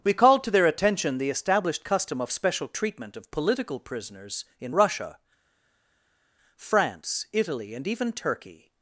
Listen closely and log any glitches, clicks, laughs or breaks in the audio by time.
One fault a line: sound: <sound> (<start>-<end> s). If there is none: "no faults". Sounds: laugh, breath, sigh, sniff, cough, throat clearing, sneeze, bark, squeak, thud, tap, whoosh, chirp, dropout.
no faults